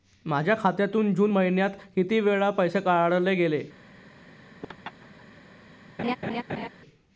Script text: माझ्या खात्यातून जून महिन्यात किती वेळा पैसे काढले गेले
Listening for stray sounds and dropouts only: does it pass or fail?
fail